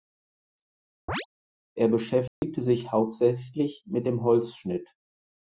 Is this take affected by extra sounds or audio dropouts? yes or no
yes